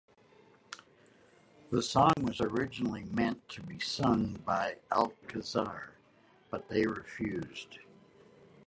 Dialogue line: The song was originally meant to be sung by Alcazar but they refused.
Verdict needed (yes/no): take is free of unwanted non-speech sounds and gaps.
no